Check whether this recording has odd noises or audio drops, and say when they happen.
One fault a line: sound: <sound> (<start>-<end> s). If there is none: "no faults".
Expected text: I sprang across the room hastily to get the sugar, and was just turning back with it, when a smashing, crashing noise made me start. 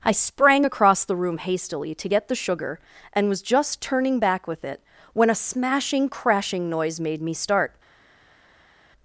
no faults